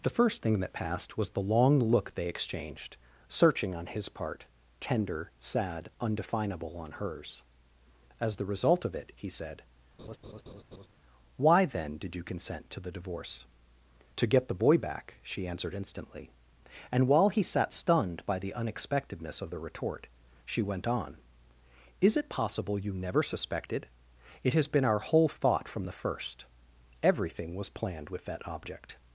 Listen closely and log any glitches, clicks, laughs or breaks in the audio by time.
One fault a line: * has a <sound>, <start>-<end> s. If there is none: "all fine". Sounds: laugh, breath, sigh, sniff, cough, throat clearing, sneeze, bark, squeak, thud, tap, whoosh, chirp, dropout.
* has a laugh, 10.0-10.9 s